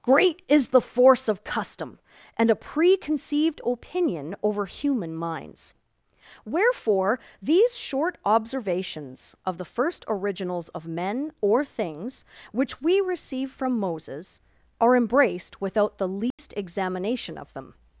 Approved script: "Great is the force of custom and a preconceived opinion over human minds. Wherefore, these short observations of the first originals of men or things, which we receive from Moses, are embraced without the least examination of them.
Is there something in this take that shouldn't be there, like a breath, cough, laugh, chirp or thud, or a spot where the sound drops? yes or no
yes